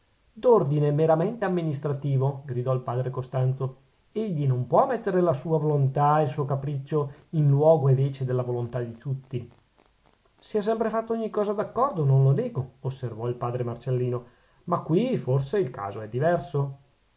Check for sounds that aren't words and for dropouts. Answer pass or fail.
pass